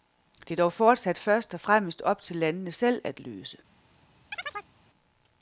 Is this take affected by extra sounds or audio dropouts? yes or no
yes